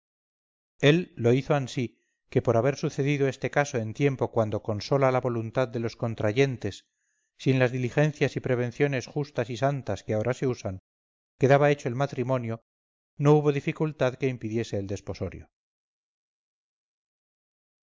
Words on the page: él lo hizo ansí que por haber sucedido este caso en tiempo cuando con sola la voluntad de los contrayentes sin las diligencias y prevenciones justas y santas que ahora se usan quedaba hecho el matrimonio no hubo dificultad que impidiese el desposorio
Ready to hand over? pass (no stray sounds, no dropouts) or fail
pass